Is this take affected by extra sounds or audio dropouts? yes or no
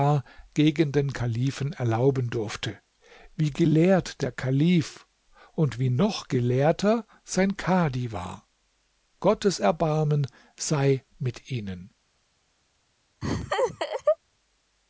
yes